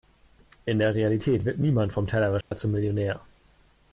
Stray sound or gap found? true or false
true